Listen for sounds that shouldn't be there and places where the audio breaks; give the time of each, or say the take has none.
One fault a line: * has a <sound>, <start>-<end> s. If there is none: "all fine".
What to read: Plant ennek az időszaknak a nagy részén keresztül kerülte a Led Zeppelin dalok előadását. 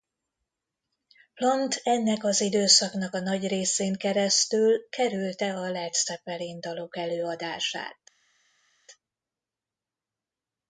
all fine